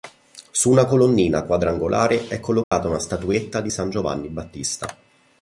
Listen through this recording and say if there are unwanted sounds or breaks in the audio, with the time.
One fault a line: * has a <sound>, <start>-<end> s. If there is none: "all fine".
* has a dropout, 2.6-2.7 s